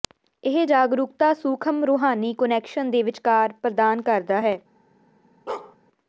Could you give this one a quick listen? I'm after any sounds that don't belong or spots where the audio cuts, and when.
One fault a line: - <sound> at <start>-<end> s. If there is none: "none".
- bark at 5.5-5.8 s